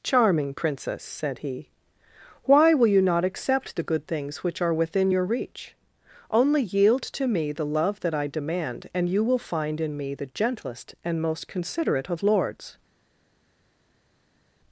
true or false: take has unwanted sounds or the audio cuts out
false